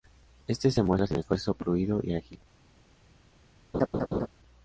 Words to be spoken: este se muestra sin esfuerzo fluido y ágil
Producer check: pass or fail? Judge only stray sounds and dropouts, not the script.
fail